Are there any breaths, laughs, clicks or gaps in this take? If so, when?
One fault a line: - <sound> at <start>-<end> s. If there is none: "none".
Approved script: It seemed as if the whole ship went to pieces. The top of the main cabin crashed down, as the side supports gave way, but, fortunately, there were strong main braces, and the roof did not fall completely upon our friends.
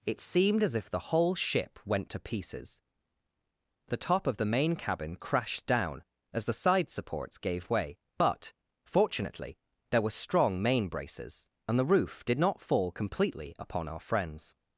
none